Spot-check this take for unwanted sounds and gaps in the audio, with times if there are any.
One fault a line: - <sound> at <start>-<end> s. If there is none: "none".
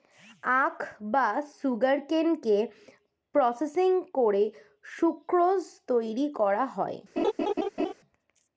- laugh at 7.2-7.9 s